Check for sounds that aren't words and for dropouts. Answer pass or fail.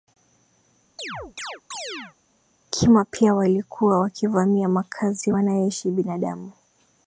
fail